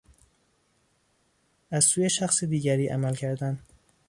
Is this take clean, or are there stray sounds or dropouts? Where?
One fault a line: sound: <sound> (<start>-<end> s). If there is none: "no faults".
no faults